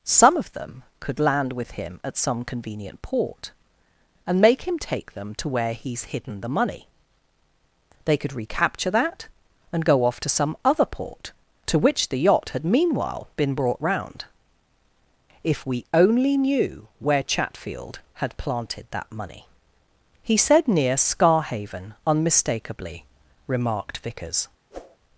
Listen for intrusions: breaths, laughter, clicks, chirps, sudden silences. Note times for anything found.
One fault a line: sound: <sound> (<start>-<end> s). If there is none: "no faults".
sound: whoosh (24.7-25.0 s)